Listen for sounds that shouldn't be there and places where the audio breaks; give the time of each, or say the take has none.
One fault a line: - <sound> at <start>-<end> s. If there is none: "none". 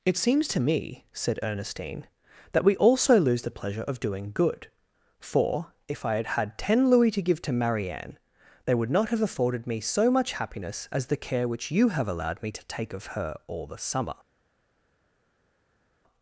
none